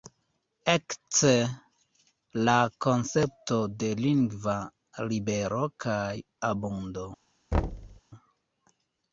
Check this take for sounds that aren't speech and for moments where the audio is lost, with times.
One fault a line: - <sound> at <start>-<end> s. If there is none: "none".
- thud at 7.5-8.0 s